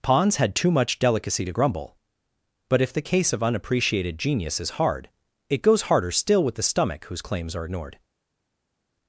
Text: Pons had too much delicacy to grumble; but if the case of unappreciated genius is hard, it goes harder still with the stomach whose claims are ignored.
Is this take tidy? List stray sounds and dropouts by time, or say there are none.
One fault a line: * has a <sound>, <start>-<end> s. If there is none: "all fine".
all fine